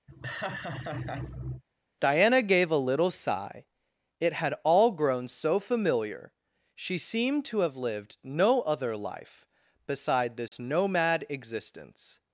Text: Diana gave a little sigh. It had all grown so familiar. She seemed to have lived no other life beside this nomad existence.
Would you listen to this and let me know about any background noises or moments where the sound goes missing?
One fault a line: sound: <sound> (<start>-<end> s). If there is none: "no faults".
sound: laugh (0.1-1.6 s)
sound: dropout (10.5-10.5 s)